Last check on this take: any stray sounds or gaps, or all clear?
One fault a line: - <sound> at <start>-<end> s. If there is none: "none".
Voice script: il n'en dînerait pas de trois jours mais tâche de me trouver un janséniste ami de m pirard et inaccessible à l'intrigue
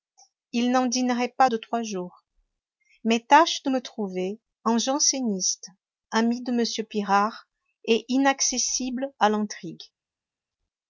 none